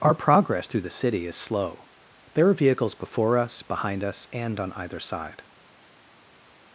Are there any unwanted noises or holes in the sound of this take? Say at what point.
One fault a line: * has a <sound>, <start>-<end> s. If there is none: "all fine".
all fine